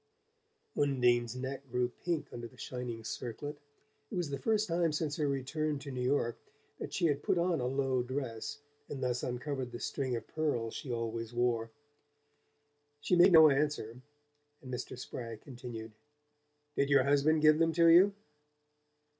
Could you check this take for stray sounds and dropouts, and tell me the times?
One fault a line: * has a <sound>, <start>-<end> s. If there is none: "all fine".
all fine